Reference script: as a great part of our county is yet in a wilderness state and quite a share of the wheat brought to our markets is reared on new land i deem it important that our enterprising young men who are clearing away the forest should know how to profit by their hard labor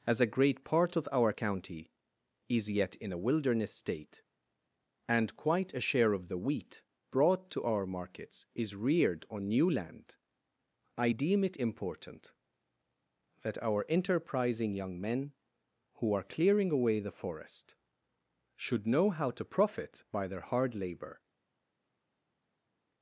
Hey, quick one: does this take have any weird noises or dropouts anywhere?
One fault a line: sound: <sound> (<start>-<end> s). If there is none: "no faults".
no faults